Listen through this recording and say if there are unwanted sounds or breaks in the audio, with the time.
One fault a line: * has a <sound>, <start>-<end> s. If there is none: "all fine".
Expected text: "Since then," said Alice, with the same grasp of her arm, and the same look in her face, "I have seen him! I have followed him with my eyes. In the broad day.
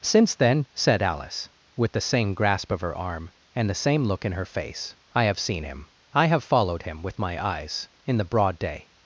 all fine